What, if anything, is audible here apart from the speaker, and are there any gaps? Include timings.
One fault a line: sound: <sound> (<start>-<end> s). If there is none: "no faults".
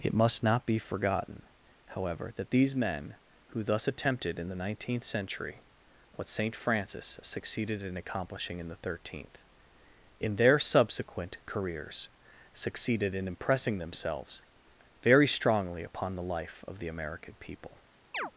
sound: chirp (18.1-18.3 s)